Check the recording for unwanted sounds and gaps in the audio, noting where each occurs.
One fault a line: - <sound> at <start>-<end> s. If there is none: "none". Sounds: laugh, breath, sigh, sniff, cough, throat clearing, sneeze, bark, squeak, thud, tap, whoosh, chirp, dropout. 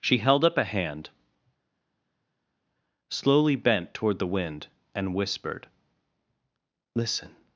none